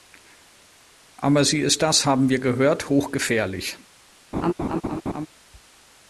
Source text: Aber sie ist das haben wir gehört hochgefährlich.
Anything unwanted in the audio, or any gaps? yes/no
yes